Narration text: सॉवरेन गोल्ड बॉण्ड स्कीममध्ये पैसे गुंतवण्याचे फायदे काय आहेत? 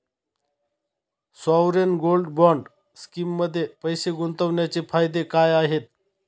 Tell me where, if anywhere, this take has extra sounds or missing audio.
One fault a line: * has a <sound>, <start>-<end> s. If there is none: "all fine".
all fine